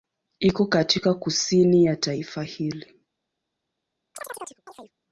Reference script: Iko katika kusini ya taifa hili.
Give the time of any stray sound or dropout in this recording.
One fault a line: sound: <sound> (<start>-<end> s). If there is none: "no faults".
sound: chirp (4.1-4.9 s)